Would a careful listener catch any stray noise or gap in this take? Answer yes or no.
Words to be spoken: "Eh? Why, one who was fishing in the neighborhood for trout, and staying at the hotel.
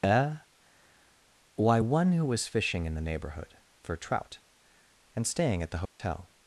yes